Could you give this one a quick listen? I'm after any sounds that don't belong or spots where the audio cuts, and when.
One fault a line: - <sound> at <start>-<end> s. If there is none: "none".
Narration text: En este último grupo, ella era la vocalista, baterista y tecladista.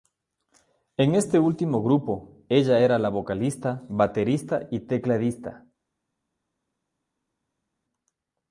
none